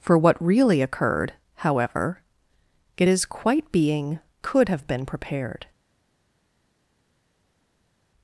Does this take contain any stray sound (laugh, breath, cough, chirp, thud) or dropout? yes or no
no